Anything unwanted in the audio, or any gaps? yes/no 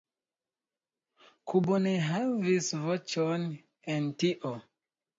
no